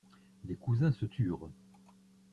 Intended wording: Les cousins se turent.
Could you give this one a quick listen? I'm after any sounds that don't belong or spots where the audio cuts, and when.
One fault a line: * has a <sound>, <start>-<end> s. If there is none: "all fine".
all fine